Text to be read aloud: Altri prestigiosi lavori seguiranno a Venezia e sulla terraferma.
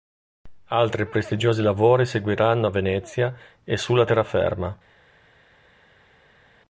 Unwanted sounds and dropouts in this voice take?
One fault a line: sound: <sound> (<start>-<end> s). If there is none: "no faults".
no faults